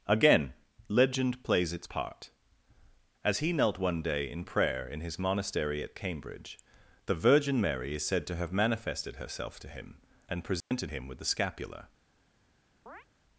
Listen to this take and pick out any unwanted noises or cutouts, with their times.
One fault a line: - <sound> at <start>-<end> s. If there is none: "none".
- dropout at 10.6-10.7 s
- chirp at 12.9-13.1 s